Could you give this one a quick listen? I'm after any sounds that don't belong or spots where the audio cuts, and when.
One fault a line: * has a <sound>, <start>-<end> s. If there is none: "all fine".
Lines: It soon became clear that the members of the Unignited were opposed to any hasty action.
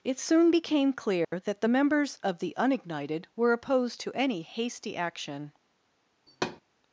* has a dropout, 1.2-1.3 s
* has a thud, 6.3-6.6 s